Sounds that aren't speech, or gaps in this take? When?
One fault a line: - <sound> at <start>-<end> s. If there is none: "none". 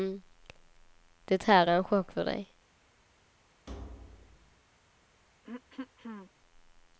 - thud at 3.7-4.6 s
- throat clearing at 5.4-6.3 s